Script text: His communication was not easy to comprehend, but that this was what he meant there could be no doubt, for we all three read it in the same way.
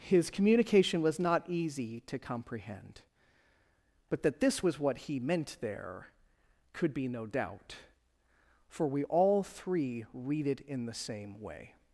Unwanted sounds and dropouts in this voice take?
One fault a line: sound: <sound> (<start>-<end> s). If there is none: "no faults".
no faults